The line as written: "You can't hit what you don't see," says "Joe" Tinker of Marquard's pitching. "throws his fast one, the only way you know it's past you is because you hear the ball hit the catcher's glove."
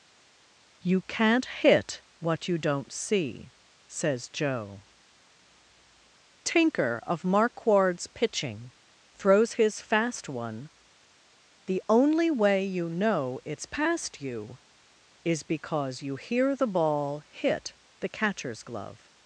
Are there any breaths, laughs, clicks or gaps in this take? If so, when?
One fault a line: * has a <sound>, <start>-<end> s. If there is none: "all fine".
all fine